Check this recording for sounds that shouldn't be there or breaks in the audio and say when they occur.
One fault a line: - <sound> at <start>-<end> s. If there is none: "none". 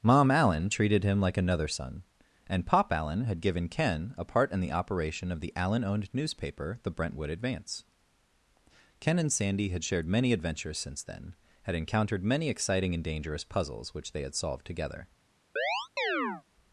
- chirp at 15.6-16.4 s